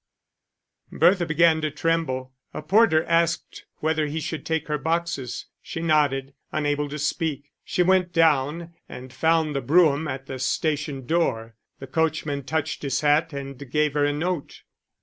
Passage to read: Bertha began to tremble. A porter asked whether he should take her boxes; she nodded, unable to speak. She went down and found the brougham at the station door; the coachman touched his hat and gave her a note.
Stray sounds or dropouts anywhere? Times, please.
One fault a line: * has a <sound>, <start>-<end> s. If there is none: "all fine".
all fine